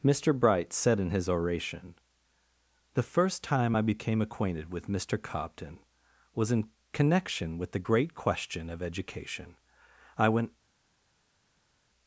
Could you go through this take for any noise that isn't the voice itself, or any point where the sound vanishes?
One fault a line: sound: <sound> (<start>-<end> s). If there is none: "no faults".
no faults